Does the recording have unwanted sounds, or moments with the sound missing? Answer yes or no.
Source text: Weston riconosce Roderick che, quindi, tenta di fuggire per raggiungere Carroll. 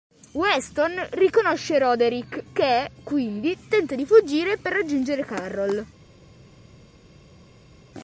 no